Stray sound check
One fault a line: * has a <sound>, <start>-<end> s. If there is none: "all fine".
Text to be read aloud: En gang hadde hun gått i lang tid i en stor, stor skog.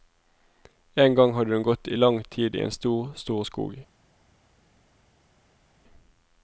all fine